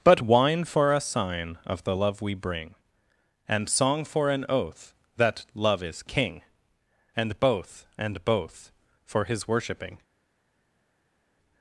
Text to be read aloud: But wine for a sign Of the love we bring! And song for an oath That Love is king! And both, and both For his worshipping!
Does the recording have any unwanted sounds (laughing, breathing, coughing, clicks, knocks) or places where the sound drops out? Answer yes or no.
no